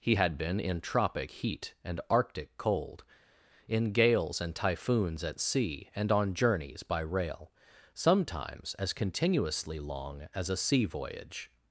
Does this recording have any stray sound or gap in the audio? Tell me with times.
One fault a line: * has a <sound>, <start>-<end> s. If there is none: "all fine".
all fine